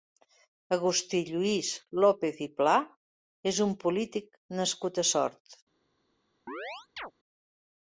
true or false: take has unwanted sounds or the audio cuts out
true